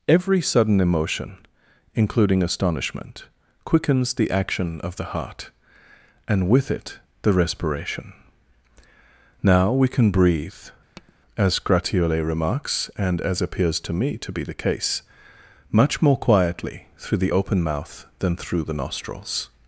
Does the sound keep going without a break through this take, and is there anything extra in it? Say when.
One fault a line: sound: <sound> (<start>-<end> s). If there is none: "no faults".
sound: tap (11.0-11.1 s)